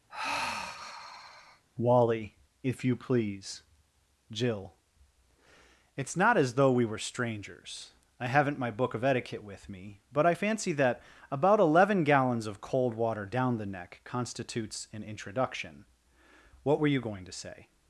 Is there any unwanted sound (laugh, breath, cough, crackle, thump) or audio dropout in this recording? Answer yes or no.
yes